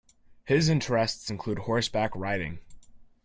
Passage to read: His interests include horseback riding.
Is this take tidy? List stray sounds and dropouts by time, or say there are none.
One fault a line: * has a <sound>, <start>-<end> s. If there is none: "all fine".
all fine